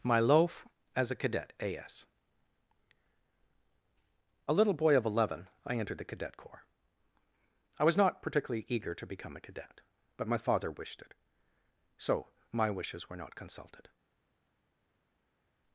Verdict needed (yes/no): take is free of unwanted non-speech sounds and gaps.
yes